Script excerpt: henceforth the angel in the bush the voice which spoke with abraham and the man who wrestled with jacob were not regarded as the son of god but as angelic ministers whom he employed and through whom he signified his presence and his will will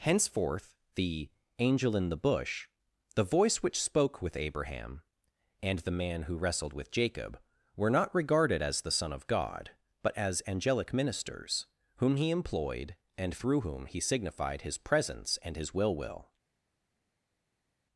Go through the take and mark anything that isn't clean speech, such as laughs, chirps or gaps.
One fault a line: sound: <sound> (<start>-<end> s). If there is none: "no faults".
no faults